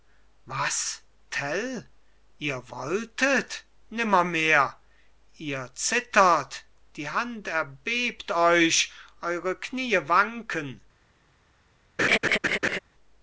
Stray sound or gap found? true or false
true